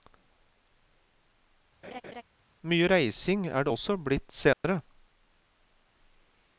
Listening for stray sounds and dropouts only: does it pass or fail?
fail